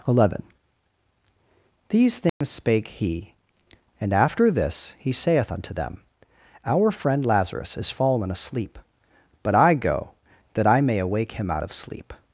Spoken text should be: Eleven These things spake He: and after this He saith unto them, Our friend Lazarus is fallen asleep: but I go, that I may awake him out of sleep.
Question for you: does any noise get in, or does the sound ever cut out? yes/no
yes